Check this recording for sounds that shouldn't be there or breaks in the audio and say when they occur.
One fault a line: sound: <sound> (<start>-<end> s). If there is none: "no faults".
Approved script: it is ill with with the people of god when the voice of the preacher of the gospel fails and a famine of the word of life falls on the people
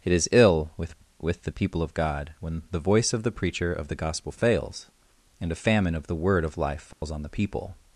sound: dropout (6.9-7.0 s)